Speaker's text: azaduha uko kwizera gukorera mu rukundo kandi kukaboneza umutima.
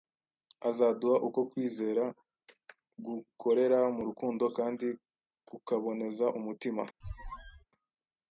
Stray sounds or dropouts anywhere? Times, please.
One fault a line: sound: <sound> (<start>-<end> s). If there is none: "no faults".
sound: squeak (7.0-7.6 s)